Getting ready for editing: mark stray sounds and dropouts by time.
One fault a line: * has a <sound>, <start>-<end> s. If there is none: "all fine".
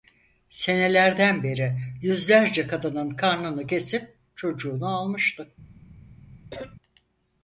* has a cough, 6.5-6.8 s